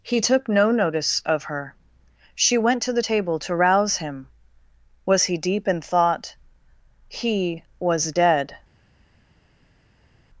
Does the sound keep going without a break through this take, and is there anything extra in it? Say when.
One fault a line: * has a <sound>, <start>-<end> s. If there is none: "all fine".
all fine